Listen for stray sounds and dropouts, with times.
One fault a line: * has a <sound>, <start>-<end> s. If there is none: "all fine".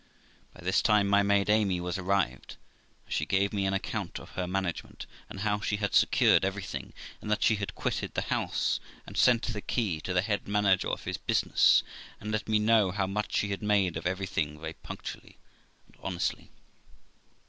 all fine